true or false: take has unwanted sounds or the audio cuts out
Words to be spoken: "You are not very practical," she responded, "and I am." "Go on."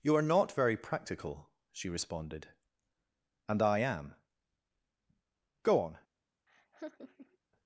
true